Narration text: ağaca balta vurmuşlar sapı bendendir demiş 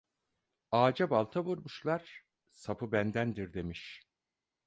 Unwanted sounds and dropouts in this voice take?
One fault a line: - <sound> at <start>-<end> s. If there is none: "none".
none